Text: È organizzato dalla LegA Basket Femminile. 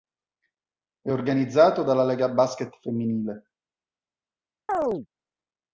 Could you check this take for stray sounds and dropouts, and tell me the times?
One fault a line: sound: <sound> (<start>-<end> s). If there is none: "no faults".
sound: chirp (4.7-5.1 s)